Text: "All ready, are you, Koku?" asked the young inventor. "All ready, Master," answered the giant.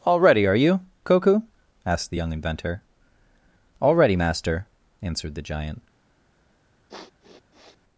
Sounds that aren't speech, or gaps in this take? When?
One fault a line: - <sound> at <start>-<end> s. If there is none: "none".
- sniff at 6.9-7.8 s